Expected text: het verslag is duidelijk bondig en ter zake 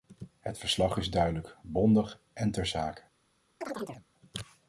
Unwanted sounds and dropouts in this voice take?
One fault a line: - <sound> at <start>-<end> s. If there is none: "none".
- chirp at 3.6-4.0 s